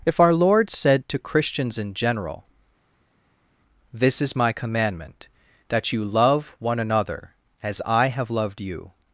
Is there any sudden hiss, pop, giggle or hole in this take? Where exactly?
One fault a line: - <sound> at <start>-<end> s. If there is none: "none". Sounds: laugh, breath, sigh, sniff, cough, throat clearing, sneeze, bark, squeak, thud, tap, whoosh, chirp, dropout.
none